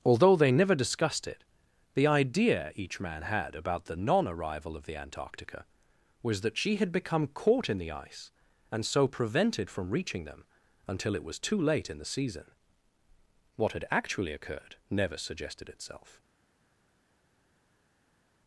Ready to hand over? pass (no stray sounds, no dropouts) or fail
pass